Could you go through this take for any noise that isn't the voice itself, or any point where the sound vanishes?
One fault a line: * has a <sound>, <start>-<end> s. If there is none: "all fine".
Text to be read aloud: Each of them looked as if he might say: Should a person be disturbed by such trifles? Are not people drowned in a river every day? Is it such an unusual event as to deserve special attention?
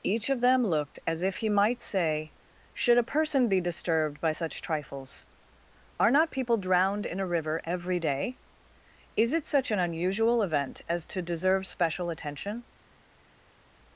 all fine